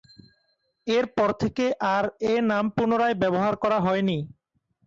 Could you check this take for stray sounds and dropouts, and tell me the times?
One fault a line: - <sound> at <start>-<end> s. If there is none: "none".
none